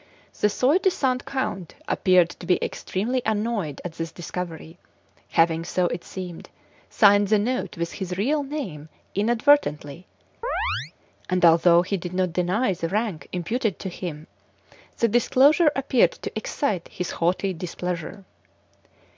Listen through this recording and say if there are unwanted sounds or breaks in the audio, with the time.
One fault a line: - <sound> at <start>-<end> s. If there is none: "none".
- chirp at 10.4-10.9 s